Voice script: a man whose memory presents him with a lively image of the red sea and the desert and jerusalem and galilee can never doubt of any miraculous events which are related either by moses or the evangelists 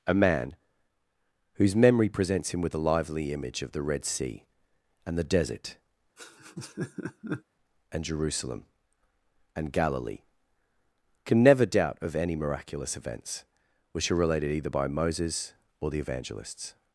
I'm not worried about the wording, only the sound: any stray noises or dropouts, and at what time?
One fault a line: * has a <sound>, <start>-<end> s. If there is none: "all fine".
* has a laugh, 6.2-7.4 s